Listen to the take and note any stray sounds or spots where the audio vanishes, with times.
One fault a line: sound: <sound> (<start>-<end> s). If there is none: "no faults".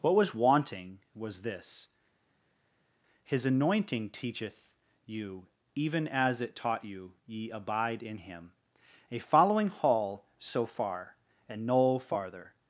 no faults